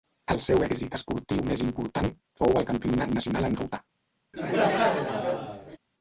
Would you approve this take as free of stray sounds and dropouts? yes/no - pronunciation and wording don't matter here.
no